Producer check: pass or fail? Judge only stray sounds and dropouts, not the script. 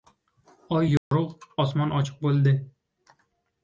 fail